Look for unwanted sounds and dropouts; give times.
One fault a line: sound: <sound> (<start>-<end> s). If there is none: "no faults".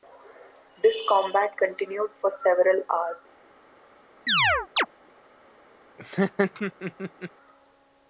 sound: chirp (4.3-4.9 s)
sound: laugh (6.0-7.3 s)